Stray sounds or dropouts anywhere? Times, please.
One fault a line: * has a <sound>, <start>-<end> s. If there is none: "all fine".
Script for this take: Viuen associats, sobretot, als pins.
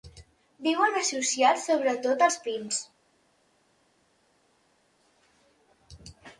all fine